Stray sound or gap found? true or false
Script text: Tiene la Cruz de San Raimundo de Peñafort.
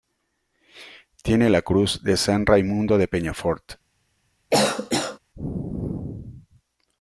true